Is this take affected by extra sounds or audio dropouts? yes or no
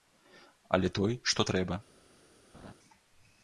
yes